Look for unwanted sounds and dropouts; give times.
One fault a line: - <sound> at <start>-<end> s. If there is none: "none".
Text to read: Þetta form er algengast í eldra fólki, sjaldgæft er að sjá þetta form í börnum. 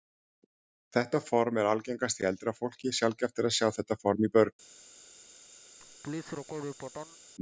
- laugh at 5.8-7.2 s